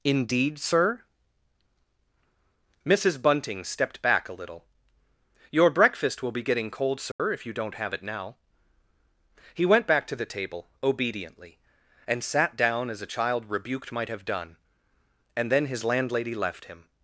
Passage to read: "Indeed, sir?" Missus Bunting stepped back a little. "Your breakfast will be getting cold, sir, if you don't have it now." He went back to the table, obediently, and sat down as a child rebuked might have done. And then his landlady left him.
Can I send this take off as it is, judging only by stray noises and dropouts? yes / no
no